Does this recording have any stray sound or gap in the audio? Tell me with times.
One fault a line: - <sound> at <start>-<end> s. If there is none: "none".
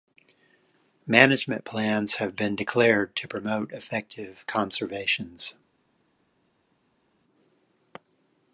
none